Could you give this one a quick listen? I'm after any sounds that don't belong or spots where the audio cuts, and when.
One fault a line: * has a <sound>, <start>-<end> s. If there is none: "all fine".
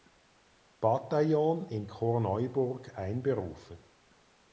all fine